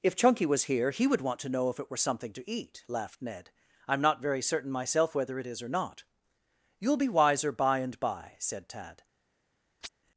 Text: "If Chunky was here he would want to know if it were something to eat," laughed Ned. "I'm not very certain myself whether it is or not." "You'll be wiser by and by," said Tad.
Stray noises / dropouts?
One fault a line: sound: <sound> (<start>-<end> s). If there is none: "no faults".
sound: chirp (9.8-9.9 s)